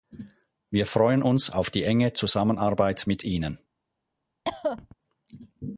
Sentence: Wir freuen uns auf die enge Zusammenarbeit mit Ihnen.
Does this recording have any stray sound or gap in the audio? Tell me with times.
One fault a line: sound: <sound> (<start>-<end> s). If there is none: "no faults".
sound: cough (4.4-4.9 s)